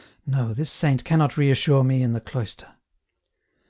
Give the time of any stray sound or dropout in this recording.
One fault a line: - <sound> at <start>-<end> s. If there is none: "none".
none